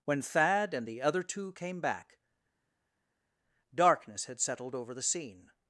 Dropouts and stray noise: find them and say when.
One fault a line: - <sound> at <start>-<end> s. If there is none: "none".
none